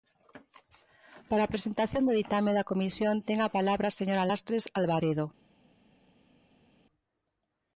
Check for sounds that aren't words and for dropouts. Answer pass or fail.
pass